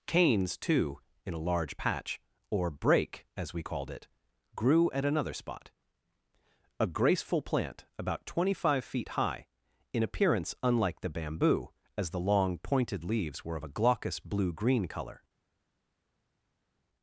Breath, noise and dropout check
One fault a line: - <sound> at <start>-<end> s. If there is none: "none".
none